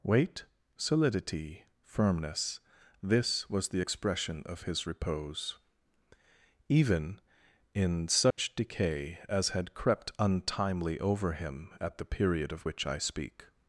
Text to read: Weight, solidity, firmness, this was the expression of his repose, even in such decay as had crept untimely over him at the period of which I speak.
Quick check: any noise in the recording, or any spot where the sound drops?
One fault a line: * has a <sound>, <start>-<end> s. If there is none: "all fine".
* has a dropout, 8.3-8.4 s